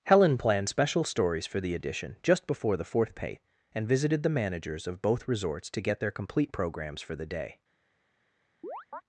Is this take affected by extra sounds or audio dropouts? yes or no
yes